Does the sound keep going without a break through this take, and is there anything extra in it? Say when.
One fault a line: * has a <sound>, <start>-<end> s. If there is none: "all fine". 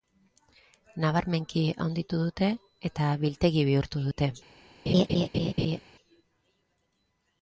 * has a laugh, 4.9-5.8 s